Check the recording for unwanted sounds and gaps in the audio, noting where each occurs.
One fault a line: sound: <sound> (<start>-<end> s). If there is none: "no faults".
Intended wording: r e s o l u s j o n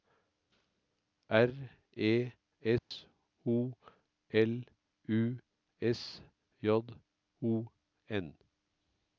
sound: dropout (2.8-2.9 s)